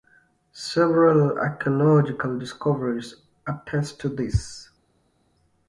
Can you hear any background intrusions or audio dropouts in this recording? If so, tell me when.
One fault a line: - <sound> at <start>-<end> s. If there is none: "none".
none